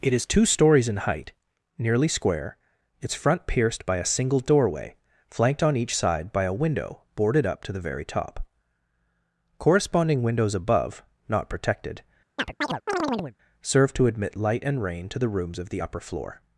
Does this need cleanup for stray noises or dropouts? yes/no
yes